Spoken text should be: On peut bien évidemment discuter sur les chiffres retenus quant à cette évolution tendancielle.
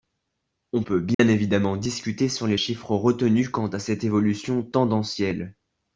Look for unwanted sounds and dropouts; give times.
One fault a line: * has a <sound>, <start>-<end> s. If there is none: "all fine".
* has a dropout, 1.1-1.2 s